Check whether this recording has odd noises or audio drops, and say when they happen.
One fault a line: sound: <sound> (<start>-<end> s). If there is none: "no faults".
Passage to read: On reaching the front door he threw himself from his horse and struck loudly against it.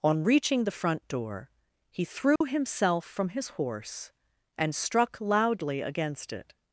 sound: dropout (2.4-2.4 s)